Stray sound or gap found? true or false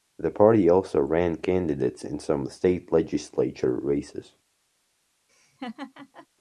true